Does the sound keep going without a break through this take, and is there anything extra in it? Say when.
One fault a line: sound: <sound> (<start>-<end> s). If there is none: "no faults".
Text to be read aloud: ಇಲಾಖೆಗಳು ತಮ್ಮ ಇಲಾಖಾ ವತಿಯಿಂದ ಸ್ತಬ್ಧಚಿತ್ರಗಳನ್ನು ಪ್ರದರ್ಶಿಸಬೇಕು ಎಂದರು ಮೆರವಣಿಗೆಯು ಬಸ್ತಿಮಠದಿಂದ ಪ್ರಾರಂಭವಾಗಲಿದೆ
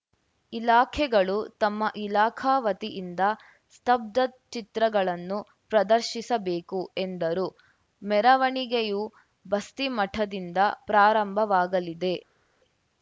no faults